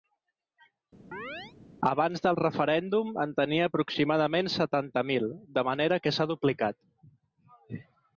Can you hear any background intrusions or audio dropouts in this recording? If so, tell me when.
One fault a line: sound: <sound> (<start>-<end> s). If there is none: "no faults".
sound: chirp (1.1-1.5 s)